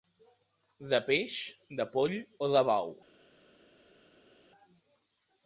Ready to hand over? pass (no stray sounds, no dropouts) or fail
pass